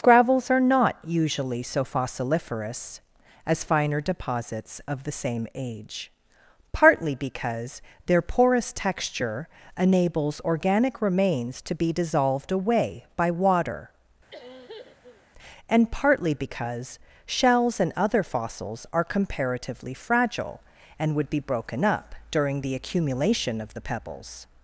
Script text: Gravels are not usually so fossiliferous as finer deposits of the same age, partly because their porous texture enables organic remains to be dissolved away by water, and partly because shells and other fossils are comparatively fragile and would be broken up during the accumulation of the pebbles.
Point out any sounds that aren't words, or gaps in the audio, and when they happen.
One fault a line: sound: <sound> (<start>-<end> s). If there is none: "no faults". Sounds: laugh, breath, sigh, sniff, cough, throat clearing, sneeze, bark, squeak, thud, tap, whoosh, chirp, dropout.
sound: cough (14.3-15.3 s)